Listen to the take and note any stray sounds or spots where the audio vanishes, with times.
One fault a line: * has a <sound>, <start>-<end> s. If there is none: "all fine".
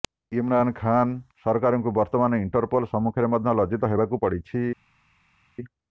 all fine